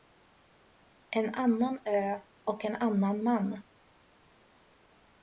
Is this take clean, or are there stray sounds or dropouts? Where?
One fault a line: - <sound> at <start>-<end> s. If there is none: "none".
none